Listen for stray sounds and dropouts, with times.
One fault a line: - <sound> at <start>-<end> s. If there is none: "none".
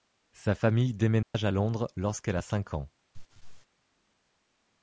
- dropout at 1.2-1.3 s
- laugh at 3.1-3.7 s